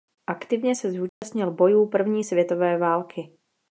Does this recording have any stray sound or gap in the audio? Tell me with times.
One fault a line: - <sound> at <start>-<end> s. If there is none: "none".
- dropout at 1.1-1.2 s